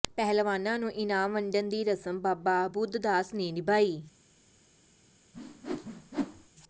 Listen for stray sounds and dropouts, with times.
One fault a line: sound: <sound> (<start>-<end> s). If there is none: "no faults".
sound: whoosh (5.3-6.5 s)